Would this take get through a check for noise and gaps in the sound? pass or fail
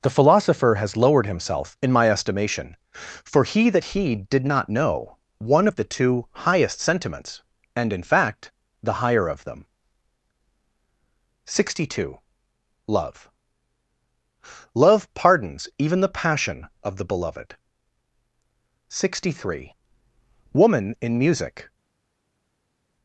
pass